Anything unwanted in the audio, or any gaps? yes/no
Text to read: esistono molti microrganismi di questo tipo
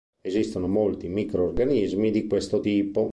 no